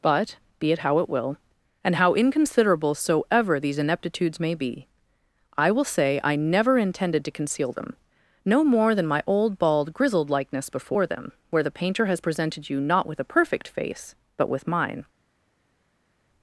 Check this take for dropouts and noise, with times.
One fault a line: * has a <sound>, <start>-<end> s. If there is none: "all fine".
all fine